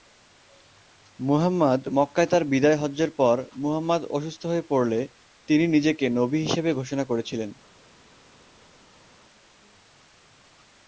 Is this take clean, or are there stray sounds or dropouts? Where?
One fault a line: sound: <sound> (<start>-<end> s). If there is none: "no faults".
no faults